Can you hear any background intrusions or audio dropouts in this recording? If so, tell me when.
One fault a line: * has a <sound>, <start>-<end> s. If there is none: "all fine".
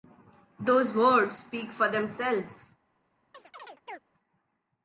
* has a chirp, 3.3-4.0 s